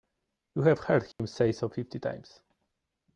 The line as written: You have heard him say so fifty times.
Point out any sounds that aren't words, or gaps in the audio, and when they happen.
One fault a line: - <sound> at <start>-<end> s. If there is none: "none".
- dropout at 1.1-1.2 s